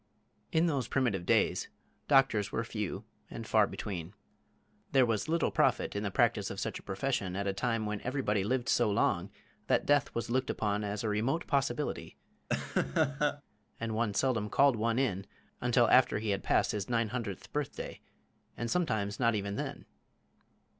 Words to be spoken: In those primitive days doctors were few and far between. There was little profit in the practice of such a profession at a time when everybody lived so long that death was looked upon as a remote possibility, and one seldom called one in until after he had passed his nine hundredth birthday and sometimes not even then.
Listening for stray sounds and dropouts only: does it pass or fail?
fail